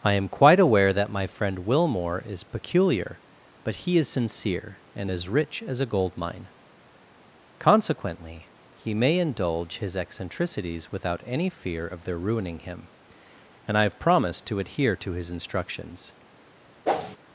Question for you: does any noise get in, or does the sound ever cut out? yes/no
yes